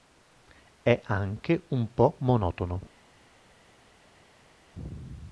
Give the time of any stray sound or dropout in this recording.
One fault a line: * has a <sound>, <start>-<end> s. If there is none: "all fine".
all fine